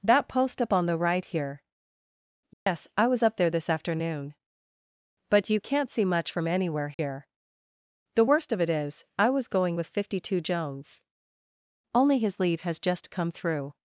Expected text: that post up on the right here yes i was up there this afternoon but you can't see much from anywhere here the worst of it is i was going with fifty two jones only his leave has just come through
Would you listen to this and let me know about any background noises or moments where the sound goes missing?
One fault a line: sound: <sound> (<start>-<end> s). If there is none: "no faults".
sound: dropout (2.5-2.7 s)
sound: dropout (6.9-7.0 s)